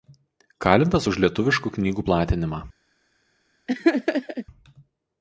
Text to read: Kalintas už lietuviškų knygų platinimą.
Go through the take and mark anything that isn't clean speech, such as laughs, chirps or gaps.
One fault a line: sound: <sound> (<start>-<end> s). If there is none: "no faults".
sound: laugh (3.7-4.5 s)